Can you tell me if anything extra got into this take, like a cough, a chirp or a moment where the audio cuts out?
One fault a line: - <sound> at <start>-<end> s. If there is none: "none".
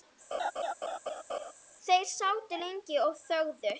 - laugh at 0.3-1.5 s